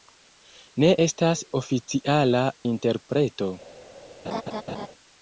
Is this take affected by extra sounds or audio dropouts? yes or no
yes